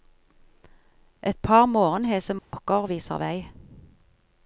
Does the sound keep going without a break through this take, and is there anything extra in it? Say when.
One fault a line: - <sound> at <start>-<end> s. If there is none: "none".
- dropout at 2.4-2.5 s